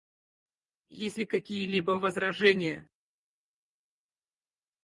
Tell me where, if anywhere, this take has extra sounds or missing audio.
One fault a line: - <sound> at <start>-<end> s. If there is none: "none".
none